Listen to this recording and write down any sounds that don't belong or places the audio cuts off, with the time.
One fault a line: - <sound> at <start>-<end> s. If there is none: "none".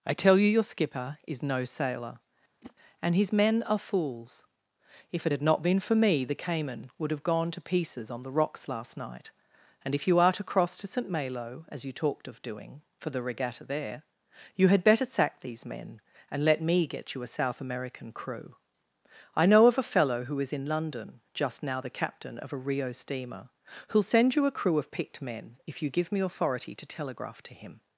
- whoosh at 2.6-2.8 s